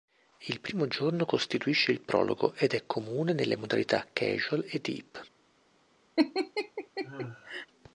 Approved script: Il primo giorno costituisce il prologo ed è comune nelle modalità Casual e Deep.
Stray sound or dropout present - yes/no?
yes